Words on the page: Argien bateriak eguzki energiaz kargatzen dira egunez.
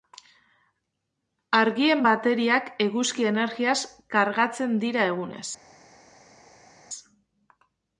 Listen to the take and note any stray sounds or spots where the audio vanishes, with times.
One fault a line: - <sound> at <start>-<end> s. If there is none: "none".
none